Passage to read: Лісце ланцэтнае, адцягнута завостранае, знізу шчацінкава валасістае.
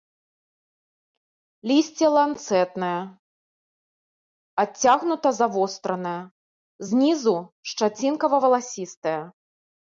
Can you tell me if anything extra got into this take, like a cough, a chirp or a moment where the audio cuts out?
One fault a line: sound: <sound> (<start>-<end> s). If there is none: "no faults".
no faults